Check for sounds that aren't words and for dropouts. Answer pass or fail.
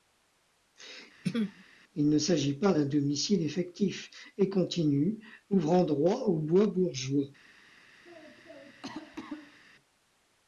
fail